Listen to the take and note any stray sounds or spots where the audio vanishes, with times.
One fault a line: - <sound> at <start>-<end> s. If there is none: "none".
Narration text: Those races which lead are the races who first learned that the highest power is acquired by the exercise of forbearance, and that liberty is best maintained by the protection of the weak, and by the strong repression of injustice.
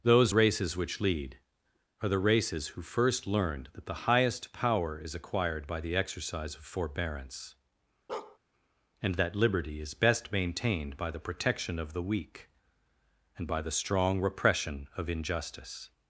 - bark at 8.1-8.4 s